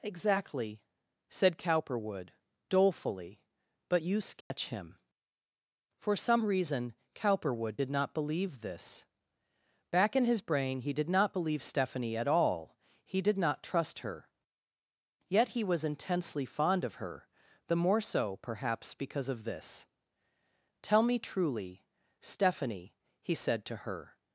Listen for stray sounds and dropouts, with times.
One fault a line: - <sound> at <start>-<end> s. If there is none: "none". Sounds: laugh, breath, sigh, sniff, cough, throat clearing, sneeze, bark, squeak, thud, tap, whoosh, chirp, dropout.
- dropout at 4.4-4.5 s